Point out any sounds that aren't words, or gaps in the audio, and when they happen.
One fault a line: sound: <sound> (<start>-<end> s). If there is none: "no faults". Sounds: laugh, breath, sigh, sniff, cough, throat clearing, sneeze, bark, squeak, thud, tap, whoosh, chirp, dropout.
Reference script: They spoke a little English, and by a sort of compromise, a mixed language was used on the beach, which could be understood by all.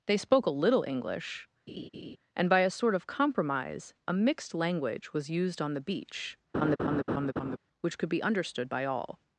sound: laugh (1.7-2.2 s)
sound: laugh (6.5-7.6 s)